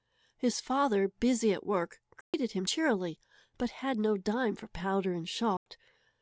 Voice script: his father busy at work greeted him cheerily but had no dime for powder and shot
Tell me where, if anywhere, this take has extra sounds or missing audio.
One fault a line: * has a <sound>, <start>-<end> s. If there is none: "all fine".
* has a dropout, 2.2-2.3 s
* has a dropout, 5.6-5.7 s